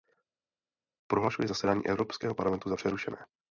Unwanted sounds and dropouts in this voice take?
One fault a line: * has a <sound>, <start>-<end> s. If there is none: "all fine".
all fine